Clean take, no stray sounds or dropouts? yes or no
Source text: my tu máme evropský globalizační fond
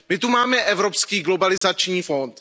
no